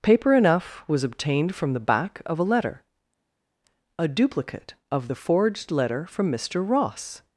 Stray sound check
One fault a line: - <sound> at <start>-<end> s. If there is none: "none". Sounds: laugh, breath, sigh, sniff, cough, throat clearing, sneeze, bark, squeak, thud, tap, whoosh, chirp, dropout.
none